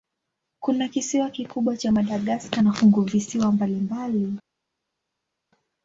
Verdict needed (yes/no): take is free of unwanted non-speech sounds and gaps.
yes